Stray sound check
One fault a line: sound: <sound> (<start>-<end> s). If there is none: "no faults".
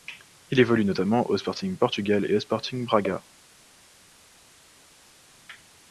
no faults